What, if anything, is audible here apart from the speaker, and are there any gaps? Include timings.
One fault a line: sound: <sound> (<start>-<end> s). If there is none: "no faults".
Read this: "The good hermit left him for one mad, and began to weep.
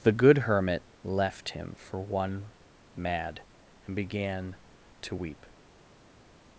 no faults